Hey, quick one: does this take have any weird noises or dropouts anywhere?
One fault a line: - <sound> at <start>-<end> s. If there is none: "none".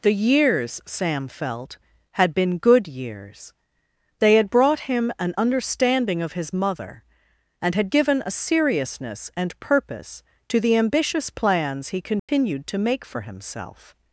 - dropout at 12.2-12.3 s